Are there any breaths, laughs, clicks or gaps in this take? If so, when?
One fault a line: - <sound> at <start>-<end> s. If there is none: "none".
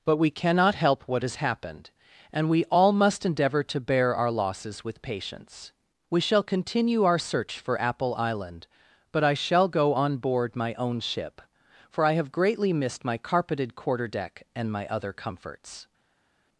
none